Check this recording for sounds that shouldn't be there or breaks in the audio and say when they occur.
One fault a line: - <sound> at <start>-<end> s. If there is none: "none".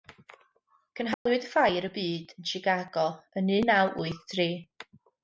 - dropout at 1.1-1.3 s